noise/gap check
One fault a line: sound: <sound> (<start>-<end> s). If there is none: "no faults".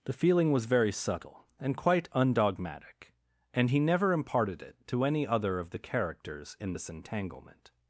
no faults